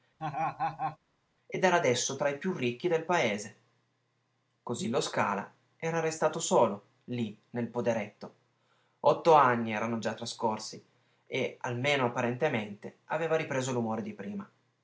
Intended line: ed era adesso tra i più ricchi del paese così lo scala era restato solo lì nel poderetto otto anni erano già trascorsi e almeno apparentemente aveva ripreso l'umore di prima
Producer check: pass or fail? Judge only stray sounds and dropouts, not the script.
fail